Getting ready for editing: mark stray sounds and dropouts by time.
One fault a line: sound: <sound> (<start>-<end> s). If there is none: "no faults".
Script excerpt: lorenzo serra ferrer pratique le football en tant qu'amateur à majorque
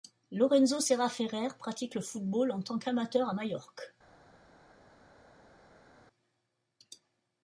no faults